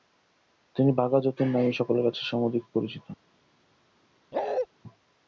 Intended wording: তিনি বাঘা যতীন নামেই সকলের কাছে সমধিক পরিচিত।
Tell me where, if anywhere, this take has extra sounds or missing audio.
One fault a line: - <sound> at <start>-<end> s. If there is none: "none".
- bark at 4.3-4.7 s